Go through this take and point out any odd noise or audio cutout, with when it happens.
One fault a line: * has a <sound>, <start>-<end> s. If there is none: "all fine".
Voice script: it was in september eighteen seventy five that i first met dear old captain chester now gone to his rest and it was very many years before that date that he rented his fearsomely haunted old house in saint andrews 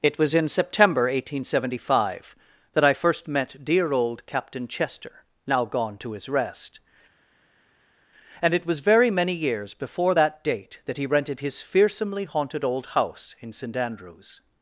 all fine